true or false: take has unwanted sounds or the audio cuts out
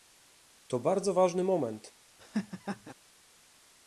true